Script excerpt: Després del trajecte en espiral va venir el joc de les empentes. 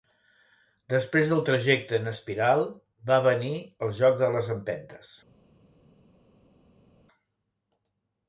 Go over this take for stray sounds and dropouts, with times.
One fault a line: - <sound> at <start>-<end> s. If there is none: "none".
none